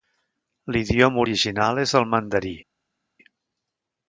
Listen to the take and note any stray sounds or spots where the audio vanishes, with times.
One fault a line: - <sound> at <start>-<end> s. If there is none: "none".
none